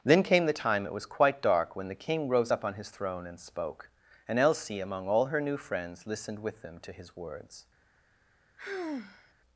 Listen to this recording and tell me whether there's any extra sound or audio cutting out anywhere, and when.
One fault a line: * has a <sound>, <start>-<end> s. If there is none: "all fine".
* has a sigh, 8.6-9.3 s